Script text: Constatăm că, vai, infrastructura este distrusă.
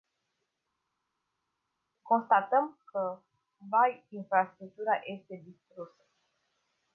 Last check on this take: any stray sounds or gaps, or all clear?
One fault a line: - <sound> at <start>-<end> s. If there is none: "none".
none